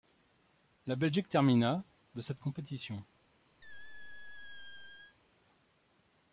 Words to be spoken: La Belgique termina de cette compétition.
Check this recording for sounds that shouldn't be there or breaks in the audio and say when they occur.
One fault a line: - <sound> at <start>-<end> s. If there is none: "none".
- squeak at 3.6-5.2 s